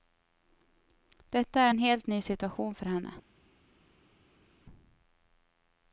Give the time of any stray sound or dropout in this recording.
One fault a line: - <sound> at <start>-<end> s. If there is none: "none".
none